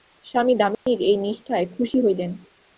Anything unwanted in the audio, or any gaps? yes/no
yes